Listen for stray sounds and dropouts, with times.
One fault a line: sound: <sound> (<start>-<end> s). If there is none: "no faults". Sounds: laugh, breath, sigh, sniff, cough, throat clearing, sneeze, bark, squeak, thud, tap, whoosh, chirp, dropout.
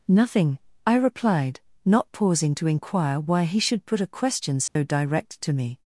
sound: dropout (4.7-4.8 s)